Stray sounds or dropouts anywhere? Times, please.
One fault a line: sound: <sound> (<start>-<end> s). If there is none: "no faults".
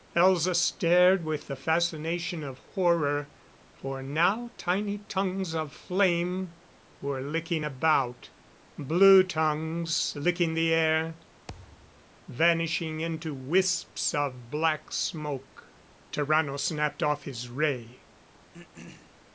sound: thud (11.5-12.1 s)
sound: throat clearing (18.5-19.2 s)